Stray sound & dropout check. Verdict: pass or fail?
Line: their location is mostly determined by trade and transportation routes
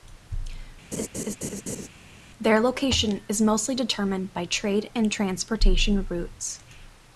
fail